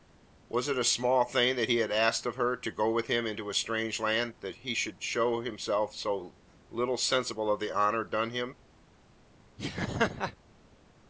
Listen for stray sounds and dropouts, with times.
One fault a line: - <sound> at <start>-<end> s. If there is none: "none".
- laugh at 9.6-10.4 s